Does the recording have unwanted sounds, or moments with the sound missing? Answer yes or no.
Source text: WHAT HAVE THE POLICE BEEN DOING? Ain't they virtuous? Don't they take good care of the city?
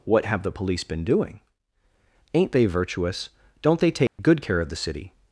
yes